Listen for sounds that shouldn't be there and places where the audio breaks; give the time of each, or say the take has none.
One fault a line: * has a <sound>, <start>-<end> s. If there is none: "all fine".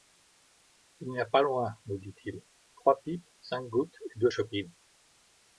all fine